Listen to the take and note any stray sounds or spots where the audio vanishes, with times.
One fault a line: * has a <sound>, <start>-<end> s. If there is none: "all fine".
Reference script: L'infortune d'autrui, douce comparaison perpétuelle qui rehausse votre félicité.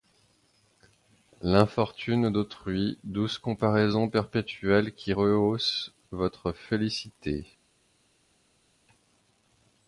all fine